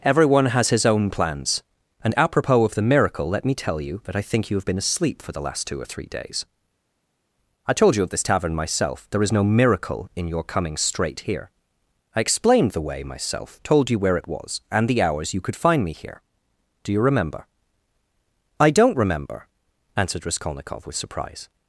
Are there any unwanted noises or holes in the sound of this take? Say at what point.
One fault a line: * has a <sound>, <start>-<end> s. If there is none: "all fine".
all fine